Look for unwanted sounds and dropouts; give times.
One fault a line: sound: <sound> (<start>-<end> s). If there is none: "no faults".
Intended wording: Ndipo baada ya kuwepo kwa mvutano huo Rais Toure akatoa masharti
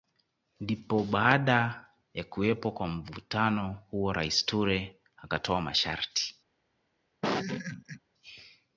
sound: laugh (7.2-8.0 s)